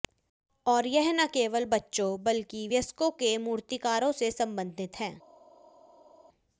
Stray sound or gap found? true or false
false